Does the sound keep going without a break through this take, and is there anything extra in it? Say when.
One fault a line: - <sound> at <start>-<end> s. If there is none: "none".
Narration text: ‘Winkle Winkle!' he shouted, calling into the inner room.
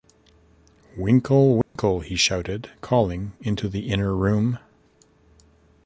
- dropout at 1.6-1.8 s